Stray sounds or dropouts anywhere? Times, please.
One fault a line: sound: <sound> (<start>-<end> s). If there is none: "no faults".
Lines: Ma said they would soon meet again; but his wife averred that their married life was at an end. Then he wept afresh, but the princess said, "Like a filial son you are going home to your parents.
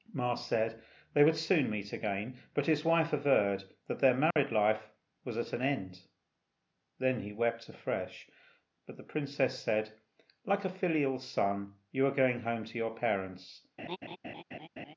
sound: dropout (4.3-4.4 s)
sound: laugh (13.8-14.9 s)